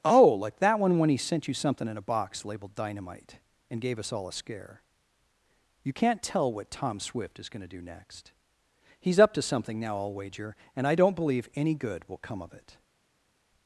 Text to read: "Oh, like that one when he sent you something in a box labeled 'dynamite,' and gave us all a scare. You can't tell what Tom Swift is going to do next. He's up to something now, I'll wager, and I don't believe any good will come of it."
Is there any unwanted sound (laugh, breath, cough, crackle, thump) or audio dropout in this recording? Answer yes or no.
no